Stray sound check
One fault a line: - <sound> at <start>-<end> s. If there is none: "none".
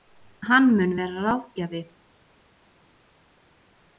none